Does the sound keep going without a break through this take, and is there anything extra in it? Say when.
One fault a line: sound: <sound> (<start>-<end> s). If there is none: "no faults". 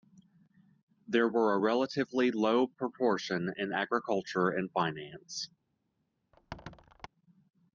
sound: squeak (6.3-7.1 s)